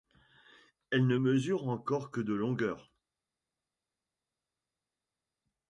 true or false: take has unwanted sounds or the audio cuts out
false